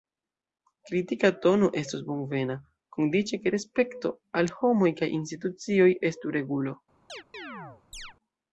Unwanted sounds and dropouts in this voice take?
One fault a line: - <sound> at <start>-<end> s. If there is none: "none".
- chirp at 7.1-8.1 s